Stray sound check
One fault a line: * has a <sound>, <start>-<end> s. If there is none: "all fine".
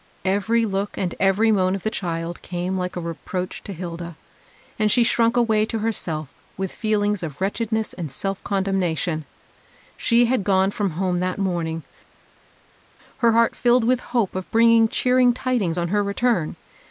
all fine